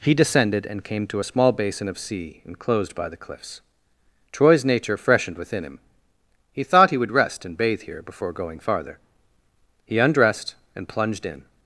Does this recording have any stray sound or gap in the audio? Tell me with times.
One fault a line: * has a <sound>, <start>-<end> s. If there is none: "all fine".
all fine